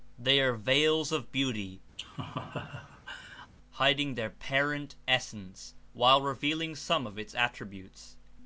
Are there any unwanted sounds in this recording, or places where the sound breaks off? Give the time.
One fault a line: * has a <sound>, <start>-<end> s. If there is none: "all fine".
* has a laugh, 2.0-3.5 s